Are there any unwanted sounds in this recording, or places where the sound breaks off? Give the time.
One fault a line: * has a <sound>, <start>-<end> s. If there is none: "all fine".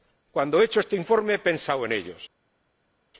all fine